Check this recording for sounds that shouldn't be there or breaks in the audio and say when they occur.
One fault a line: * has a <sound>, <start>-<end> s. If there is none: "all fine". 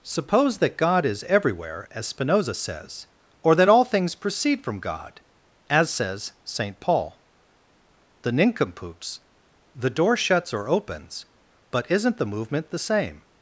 all fine